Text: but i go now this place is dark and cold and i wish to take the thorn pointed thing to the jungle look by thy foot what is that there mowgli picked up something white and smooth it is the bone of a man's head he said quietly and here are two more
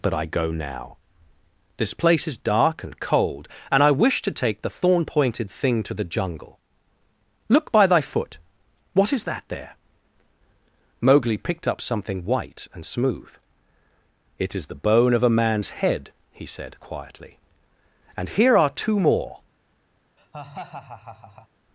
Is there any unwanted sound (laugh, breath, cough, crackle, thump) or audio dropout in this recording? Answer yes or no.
yes